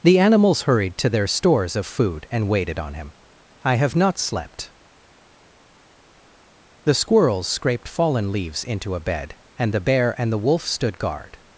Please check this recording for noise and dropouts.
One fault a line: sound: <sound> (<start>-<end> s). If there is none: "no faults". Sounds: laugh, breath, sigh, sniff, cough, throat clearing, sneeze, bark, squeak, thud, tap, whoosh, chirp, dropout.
no faults